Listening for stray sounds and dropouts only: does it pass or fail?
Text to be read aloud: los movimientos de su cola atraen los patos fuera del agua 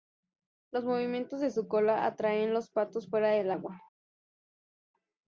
pass